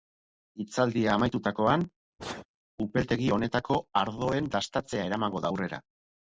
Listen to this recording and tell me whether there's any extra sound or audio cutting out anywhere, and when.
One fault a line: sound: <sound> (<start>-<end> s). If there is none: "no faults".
sound: sneeze (2.2-2.5 s)